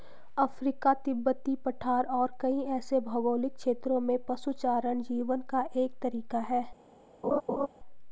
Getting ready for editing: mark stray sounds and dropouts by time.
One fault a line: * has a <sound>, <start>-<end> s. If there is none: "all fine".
* has a laugh, 7.2-7.7 s